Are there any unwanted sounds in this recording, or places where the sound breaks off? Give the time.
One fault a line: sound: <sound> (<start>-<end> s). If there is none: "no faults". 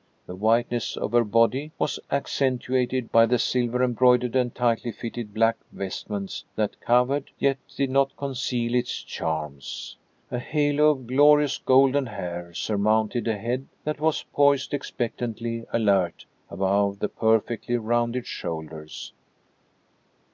no faults